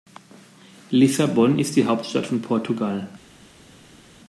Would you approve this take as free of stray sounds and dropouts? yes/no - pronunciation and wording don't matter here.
yes